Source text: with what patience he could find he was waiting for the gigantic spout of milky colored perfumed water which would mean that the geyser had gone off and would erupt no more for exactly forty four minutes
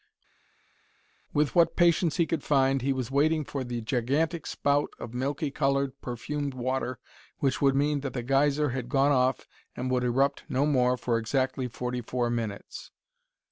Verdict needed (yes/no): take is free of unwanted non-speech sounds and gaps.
yes